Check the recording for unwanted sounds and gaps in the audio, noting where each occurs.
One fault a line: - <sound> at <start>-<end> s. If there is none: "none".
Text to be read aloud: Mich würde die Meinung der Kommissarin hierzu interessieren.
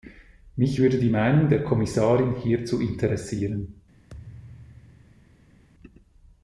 - thud at 4.1-5.6 s